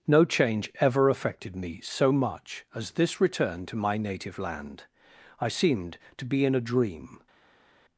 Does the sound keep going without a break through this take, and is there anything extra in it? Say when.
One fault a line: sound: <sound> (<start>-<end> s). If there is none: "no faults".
no faults